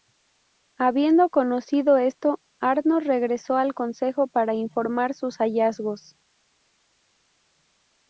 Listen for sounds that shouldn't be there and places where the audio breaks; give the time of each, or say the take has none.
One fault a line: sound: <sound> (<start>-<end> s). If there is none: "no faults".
no faults